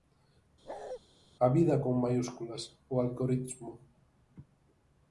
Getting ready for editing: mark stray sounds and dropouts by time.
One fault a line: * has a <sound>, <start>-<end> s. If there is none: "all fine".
* has a bark, 0.7-1.0 s